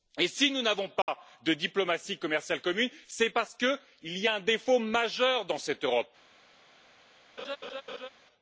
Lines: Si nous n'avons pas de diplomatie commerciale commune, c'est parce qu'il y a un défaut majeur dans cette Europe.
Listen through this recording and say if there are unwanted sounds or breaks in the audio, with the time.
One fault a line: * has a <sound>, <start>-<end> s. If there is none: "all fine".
* has a dropout, 1.0-1.1 s
* has a laugh, 7.4-8.1 s